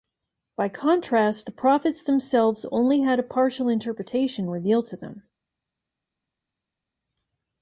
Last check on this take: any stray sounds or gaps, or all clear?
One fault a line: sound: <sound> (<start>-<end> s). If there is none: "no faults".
no faults